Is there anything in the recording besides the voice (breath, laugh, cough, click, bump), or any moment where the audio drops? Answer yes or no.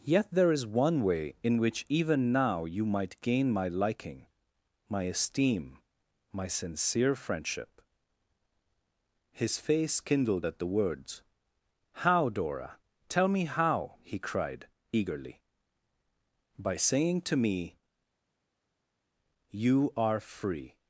no